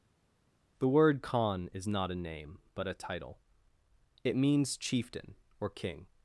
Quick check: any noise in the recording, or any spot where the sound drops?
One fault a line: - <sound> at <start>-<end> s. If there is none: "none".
none